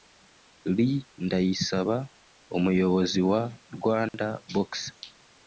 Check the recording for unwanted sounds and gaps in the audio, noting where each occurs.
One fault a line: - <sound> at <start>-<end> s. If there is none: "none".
- dropout at 4.1-4.1 s